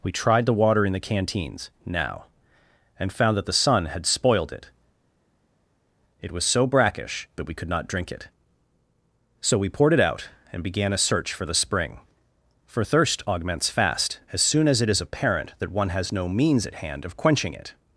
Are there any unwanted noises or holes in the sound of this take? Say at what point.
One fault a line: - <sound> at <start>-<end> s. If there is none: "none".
none